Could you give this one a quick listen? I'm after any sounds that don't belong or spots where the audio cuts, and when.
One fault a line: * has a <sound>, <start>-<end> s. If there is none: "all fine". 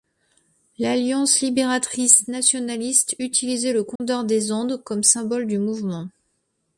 * has a dropout, 4.0-4.0 s